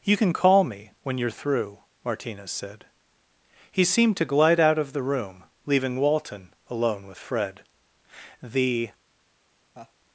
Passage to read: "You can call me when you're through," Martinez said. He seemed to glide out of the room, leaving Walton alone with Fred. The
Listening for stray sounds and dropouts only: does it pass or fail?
fail